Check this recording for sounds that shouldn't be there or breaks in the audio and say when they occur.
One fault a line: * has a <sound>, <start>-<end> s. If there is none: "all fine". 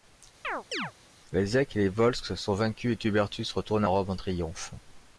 * has a chirp, 0.4-0.9 s